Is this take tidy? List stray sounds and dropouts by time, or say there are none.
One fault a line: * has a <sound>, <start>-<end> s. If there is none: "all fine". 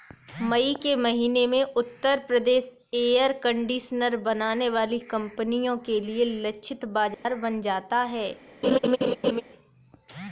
* has a dropout, 7.1-7.3 s
* has a laugh, 8.6-9.4 s